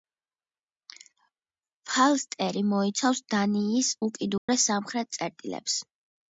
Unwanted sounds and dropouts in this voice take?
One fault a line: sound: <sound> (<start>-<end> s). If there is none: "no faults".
sound: dropout (4.4-4.5 s)